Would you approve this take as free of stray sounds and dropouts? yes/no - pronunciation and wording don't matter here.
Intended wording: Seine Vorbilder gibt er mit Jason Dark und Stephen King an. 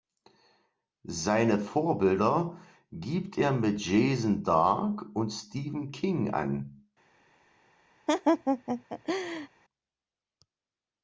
no